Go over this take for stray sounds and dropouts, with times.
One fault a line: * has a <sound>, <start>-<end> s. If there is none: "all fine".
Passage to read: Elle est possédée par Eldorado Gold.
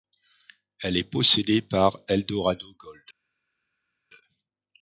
all fine